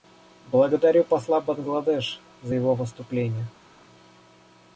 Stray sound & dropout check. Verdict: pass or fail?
pass